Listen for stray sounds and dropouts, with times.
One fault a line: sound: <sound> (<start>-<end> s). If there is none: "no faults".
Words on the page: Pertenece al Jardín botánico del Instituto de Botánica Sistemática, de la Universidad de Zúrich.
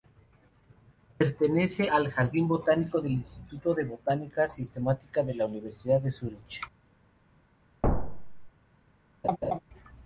sound: thud (7.8-8.5 s)
sound: laugh (9.2-9.6 s)